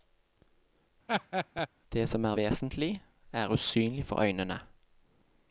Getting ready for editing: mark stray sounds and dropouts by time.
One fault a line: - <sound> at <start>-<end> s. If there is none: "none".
- laugh at 1.1-1.7 s